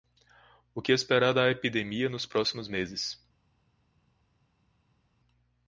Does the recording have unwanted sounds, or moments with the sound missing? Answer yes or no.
no